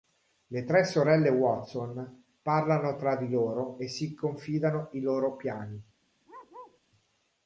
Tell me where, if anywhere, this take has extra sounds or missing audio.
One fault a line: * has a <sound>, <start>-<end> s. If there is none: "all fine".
* has a bark, 6.3-6.8 s